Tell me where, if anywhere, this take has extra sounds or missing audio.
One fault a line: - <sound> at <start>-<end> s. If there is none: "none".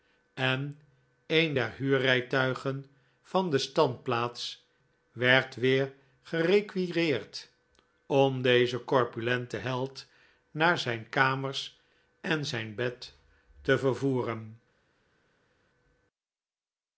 none